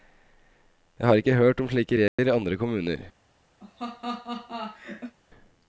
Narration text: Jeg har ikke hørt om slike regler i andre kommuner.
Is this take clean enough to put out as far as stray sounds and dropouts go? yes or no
no